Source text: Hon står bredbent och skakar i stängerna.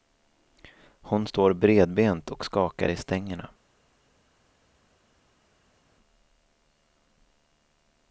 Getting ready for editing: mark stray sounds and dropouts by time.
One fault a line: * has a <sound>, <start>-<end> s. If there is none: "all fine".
all fine